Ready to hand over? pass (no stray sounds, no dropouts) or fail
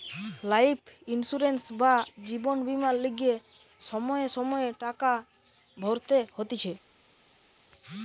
pass